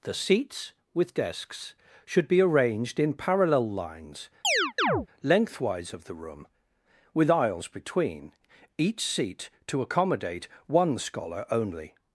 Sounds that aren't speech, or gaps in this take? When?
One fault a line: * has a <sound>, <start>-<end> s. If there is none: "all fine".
* has a chirp, 4.4-5.1 s